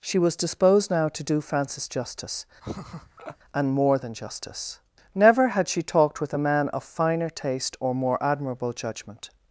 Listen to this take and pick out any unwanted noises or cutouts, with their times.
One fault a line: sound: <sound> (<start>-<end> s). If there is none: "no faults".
sound: laugh (2.6-3.4 s)